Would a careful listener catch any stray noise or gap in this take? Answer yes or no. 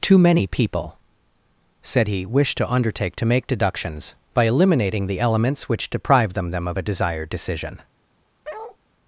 yes